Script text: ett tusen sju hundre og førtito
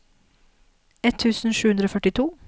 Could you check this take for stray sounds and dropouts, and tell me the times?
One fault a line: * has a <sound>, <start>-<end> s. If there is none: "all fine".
all fine